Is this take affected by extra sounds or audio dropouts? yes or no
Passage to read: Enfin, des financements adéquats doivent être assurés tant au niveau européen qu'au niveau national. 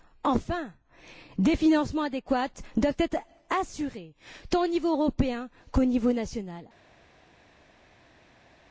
no